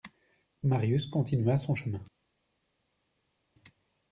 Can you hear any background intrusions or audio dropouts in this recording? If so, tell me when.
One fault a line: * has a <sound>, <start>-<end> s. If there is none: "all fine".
all fine